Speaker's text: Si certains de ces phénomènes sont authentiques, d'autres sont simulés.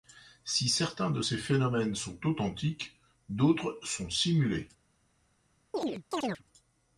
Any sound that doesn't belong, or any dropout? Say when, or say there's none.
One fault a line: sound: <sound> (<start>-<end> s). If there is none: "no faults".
sound: chirp (5.7-6.4 s)